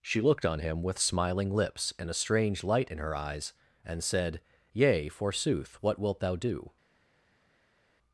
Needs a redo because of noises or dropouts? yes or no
no